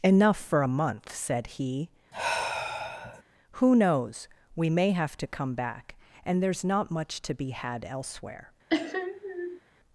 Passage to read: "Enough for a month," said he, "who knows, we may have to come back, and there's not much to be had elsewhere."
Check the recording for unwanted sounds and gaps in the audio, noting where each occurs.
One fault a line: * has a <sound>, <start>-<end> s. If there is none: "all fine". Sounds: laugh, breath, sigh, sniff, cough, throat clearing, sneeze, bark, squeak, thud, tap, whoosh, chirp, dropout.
* has a sigh, 2.1-3.2 s
* has a sniff, 8.7-9.6 s